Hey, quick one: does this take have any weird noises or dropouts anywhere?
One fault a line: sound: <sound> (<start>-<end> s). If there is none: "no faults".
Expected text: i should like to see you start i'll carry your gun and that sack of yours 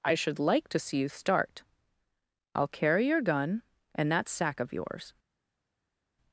no faults